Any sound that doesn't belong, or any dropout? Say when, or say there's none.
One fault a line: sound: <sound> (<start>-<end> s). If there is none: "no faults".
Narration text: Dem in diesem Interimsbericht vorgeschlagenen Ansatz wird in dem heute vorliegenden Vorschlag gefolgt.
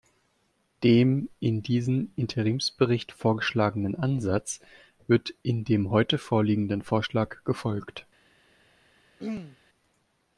sound: throat clearing (9.2-9.6 s)